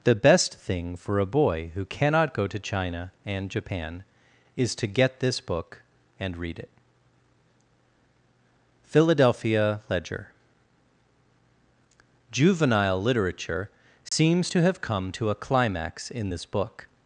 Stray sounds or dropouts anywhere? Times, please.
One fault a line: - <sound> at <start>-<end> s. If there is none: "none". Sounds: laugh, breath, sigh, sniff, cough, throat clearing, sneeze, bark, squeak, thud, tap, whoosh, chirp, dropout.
- dropout at 14.1-14.1 s